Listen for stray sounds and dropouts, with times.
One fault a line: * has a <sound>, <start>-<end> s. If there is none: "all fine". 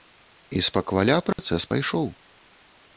* has a dropout, 1.3-1.4 s